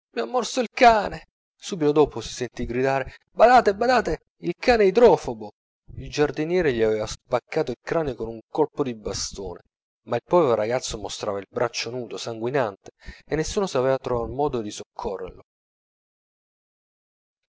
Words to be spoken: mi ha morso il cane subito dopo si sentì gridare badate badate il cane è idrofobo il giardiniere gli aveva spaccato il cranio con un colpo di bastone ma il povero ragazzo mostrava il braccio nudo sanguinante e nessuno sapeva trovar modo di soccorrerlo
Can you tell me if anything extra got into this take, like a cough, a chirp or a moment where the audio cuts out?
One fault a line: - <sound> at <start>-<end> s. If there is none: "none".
none